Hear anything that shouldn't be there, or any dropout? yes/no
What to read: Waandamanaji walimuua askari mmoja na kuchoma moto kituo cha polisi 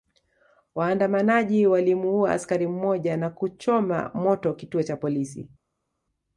no